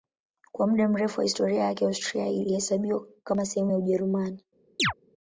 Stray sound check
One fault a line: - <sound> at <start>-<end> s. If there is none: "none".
- chirp at 4.8-4.9 s